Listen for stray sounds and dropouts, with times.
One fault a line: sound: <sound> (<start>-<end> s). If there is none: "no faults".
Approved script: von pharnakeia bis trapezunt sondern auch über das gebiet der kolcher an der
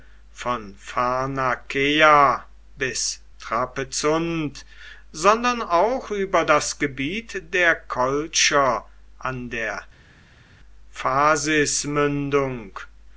no faults